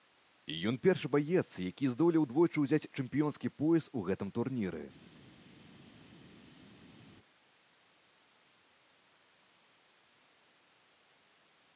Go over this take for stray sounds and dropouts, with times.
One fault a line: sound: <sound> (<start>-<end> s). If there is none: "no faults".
no faults